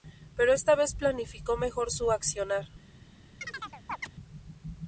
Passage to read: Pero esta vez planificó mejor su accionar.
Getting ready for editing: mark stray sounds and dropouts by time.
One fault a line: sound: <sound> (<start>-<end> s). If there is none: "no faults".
sound: chirp (3.4-4.1 s)